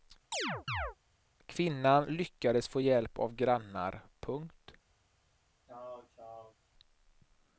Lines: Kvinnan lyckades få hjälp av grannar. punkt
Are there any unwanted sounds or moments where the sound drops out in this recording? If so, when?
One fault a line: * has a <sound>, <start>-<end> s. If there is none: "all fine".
* has a chirp, 0.3-1.0 s
* has a throat clearing, 5.7-6.6 s